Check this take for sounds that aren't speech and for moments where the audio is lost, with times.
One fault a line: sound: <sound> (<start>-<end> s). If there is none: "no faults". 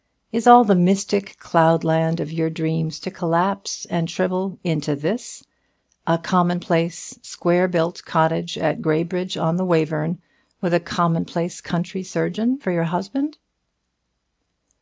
no faults